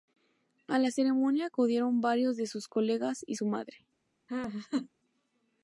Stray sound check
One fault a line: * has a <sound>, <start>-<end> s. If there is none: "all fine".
* has a laugh, 4.3-4.9 s